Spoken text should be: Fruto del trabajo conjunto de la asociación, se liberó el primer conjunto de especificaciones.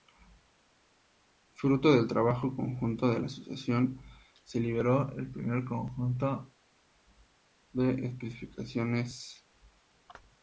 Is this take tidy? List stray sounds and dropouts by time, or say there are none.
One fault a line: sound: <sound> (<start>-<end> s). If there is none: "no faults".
no faults